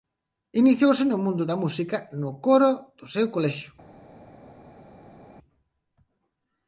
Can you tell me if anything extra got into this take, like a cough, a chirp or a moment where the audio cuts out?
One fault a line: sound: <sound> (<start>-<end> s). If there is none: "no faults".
no faults